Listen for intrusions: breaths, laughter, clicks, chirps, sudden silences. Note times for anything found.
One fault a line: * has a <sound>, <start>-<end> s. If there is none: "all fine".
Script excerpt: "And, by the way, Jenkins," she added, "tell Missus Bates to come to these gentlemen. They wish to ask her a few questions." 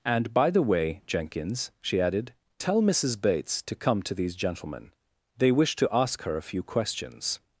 all fine